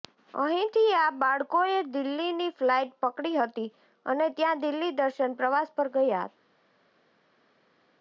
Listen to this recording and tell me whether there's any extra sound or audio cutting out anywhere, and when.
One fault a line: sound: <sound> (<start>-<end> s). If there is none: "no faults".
no faults